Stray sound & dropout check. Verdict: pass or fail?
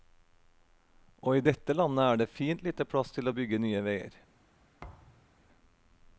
fail